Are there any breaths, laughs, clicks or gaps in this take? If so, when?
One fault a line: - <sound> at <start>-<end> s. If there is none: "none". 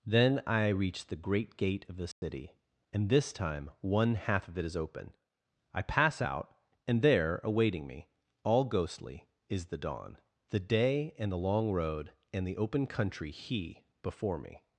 - dropout at 2.1-2.2 s